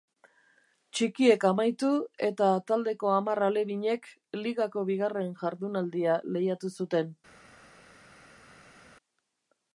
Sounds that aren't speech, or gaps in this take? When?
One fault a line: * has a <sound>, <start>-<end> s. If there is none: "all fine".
all fine